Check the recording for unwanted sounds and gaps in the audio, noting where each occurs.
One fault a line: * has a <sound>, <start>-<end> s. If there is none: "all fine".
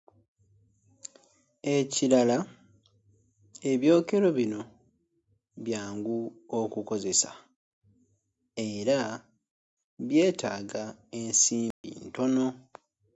* has a dropout, 11.7-11.8 s